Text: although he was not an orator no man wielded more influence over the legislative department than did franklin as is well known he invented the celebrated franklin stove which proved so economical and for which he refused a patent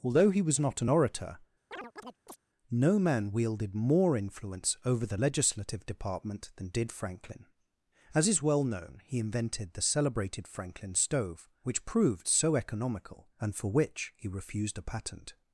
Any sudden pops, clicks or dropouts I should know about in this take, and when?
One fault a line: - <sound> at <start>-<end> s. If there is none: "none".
- chirp at 1.7-2.4 s